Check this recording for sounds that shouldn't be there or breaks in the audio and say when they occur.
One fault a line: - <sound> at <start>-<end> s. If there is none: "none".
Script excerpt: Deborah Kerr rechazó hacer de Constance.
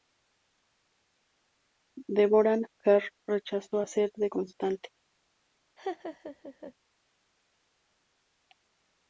- laugh at 5.8-6.7 s